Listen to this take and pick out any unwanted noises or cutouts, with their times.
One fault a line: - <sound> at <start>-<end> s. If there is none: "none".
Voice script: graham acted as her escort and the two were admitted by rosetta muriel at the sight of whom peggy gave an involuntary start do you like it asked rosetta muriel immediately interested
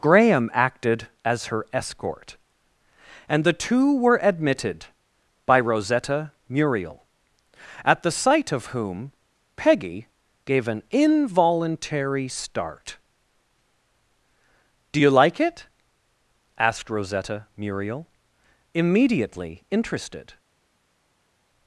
none